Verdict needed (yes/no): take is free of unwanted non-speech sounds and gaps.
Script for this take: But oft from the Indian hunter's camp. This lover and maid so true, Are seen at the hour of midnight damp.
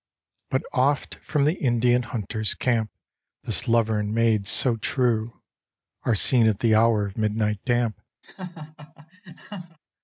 no